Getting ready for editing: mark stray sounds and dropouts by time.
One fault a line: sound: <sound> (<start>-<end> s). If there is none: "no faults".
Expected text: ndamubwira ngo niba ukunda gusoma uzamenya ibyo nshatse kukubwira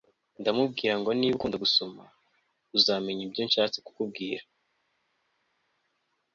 no faults